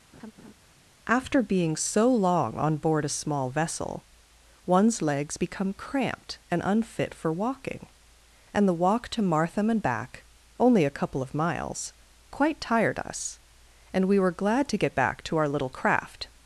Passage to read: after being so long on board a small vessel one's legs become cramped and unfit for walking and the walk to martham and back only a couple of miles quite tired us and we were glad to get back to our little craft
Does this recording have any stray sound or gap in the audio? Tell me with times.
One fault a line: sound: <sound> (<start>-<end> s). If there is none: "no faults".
sound: laugh (0.1-0.5 s)